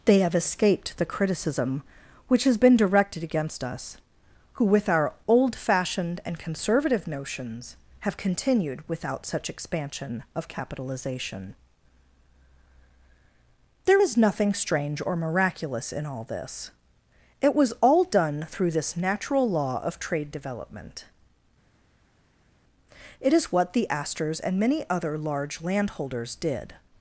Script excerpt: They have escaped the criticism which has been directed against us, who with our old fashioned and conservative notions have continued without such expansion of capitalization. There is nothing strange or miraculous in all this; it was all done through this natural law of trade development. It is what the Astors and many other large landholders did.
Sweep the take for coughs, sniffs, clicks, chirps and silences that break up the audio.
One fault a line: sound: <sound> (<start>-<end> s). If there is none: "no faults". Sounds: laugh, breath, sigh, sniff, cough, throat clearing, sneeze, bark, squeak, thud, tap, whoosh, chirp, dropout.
no faults